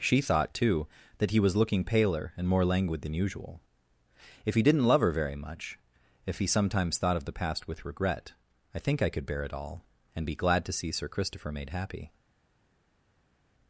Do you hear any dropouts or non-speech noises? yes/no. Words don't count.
no